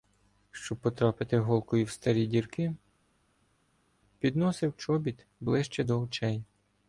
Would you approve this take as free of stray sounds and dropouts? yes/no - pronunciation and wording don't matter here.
yes